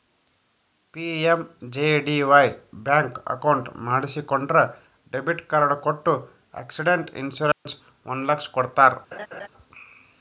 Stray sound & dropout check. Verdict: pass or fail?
fail